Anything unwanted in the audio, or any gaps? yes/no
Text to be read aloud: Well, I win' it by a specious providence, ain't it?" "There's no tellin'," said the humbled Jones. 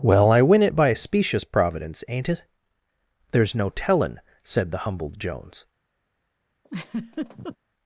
yes